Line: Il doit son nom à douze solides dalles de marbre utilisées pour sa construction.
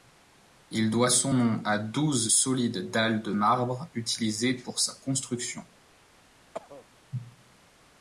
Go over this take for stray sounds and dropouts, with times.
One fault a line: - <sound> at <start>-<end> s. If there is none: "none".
- cough at 6.5-6.9 s